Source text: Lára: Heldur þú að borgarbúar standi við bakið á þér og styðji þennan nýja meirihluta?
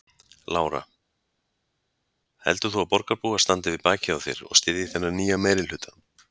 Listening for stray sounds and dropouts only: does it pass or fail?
pass